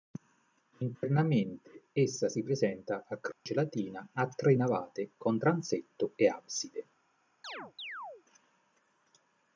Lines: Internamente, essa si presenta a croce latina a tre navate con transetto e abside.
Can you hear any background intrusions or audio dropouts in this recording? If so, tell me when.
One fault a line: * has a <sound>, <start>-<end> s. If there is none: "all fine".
* has a dropout, 3.3-3.5 s
* has a chirp, 7.4-8.2 s